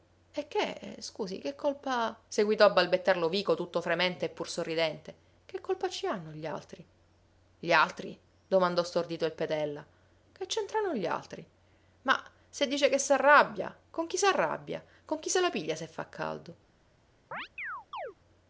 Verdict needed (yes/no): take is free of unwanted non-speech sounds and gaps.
no